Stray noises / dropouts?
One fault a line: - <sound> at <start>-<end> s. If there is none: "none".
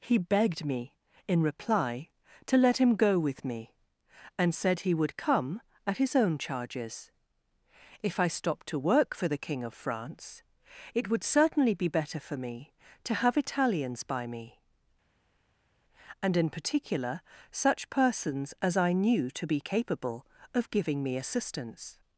none